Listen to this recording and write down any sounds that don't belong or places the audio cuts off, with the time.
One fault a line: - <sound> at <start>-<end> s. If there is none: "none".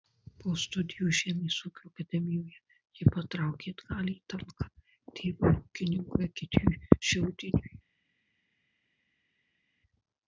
none